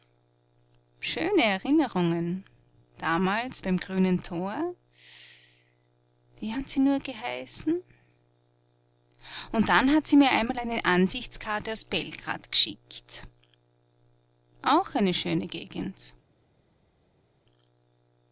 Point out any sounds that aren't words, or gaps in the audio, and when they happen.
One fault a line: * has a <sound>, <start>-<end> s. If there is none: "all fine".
all fine